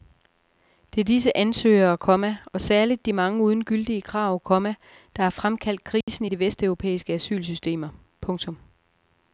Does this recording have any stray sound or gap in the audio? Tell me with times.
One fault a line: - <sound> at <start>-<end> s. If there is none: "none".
- dropout at 6.0-6.1 s